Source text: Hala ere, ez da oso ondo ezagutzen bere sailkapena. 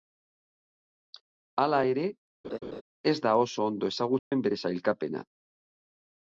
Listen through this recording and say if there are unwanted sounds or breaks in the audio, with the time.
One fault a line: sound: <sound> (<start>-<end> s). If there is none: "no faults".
sound: laugh (2.4-2.8 s)
sound: dropout (4.2-4.3 s)